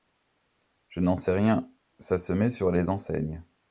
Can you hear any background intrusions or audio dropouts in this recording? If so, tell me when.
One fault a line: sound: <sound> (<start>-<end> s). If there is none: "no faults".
no faults